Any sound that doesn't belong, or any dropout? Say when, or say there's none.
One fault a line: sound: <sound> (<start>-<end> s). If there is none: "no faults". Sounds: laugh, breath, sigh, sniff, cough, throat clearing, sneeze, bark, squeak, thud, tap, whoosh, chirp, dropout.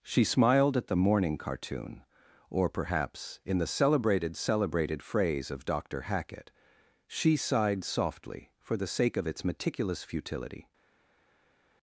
no faults